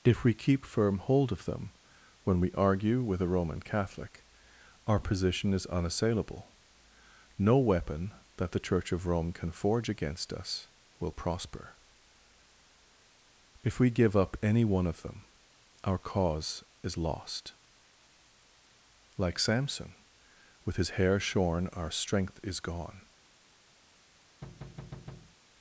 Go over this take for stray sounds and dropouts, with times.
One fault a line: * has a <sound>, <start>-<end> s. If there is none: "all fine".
* has a thud, 24.4-25.4 s